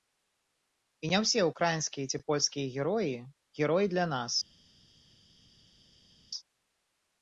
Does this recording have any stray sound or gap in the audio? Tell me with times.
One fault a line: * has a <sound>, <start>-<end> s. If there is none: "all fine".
all fine